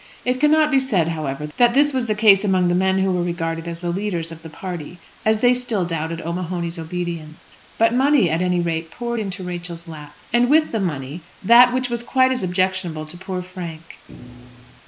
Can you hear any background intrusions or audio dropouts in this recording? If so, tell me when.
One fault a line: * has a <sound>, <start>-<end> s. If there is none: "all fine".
* has a thud, 14.1-14.8 s